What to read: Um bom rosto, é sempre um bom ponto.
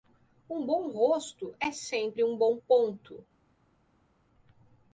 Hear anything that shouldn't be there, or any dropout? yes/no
no